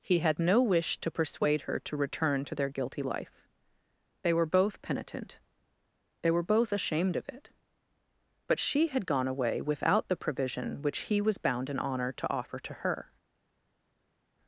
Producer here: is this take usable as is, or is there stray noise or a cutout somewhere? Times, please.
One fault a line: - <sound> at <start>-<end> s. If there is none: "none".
none